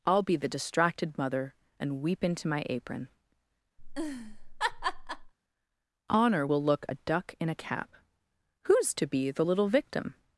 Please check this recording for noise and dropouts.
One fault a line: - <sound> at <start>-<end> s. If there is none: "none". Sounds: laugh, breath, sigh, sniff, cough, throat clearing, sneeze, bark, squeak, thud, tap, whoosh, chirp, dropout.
- laugh at 3.8-5.3 s